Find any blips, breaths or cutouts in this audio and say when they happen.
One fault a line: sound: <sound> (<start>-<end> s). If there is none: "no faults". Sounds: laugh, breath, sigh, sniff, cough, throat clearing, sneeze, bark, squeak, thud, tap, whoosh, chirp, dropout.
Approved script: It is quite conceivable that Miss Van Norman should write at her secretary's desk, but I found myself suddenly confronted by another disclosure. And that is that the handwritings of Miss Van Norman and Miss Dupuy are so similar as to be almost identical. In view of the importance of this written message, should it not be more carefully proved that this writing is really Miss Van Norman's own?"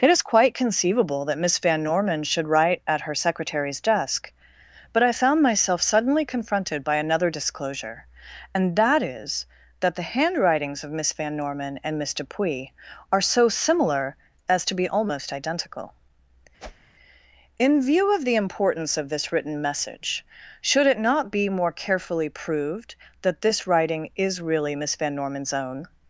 sound: whoosh (16.6-16.9 s)